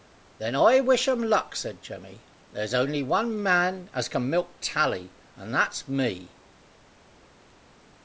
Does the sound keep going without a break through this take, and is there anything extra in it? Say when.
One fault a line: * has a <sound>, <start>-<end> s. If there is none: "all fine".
all fine